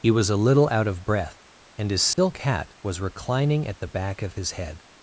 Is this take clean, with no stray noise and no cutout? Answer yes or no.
no